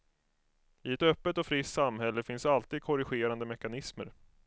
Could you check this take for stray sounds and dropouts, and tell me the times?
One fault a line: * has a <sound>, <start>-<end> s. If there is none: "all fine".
all fine